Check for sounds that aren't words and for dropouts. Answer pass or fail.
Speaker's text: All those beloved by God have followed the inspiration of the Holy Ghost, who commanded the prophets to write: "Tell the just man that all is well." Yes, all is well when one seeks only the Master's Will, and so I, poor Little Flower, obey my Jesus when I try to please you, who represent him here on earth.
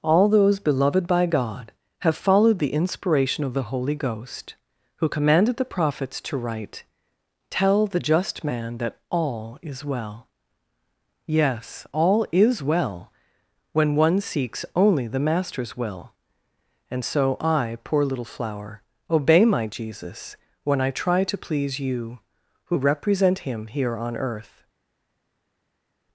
pass